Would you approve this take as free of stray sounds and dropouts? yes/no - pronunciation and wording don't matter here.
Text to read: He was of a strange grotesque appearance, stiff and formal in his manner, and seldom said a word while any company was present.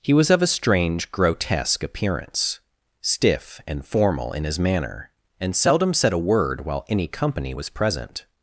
yes